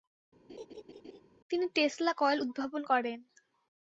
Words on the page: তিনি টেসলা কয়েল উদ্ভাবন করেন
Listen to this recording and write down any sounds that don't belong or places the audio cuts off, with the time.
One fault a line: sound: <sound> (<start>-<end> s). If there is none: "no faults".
sound: laugh (0.5-1.2 s)